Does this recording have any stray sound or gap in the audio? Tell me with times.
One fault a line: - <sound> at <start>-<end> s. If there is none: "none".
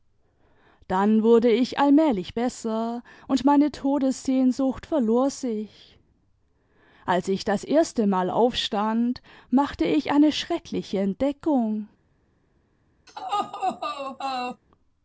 - laugh at 13.1-14.6 s